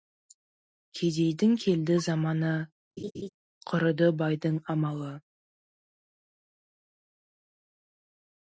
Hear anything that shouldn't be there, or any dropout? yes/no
yes